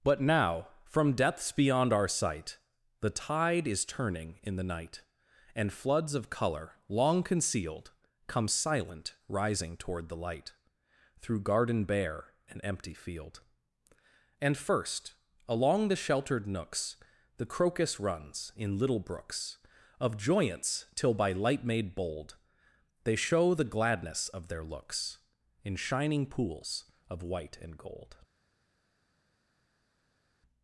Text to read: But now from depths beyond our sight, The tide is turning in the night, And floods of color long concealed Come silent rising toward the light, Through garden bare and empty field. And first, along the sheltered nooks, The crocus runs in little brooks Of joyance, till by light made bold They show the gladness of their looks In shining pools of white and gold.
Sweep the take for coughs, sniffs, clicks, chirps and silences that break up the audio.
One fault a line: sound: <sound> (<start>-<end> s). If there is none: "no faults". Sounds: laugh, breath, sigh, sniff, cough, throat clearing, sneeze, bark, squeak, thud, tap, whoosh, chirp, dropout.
no faults